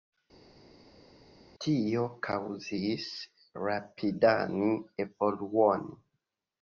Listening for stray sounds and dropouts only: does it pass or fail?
pass